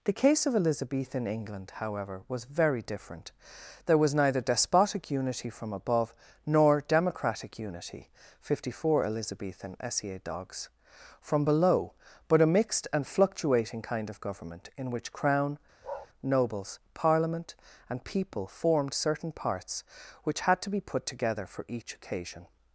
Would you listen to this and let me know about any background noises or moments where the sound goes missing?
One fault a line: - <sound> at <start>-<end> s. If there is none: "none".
- bark at 15.8-16.1 s